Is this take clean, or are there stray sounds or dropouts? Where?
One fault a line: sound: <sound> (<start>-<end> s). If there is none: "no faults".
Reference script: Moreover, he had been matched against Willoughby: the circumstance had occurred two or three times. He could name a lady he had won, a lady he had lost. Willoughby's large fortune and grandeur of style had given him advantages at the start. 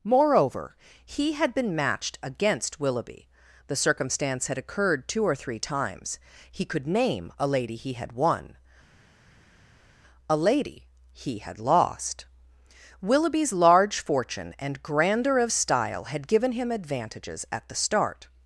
no faults